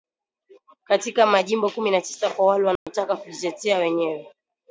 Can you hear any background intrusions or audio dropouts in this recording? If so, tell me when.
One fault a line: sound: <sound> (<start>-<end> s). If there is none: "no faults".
sound: dropout (2.8-2.9 s)